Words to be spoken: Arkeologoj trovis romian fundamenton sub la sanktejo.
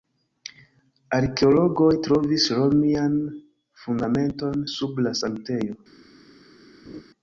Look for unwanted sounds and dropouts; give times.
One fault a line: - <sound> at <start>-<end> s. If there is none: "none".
- laugh at 6.9-7.0 s